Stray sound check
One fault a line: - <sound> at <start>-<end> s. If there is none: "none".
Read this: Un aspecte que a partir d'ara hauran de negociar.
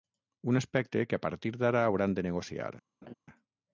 - laugh at 3.0-3.1 s